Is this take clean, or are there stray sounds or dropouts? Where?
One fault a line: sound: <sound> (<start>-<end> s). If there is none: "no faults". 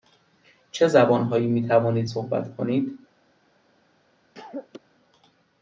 sound: cough (4.3-4.8 s)